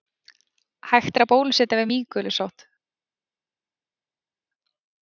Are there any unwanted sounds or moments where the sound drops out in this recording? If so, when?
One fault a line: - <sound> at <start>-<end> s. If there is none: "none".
none